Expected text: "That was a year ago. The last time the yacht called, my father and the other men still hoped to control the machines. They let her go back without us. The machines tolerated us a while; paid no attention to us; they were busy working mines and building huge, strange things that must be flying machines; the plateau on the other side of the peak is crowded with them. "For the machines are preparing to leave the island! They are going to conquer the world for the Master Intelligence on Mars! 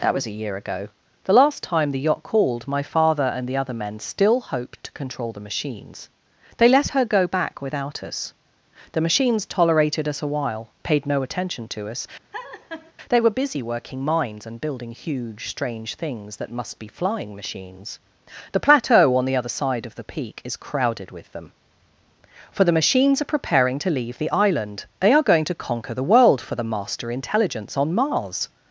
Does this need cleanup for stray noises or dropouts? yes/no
yes